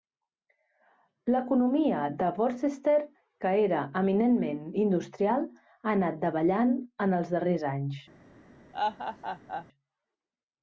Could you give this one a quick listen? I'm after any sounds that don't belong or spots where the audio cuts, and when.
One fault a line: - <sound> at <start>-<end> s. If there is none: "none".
- laugh at 8.7-9.7 s